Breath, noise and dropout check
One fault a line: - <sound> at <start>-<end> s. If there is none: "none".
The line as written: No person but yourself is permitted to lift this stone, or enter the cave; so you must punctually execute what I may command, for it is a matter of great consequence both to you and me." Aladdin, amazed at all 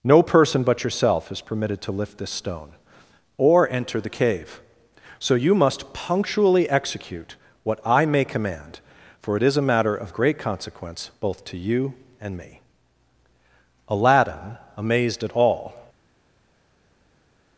none